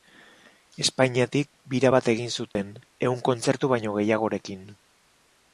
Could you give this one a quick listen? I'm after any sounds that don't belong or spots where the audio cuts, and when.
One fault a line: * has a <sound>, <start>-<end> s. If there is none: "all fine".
* has a dropout, 2.5-2.6 s